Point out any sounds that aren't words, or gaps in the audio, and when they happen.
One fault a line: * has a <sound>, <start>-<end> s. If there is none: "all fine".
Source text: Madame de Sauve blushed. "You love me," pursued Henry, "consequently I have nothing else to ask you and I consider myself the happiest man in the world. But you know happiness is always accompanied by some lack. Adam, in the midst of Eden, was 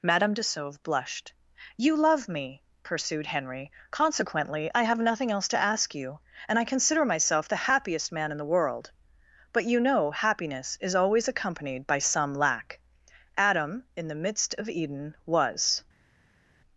all fine